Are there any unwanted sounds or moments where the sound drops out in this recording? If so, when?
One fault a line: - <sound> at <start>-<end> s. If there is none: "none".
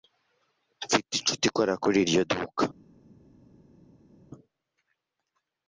none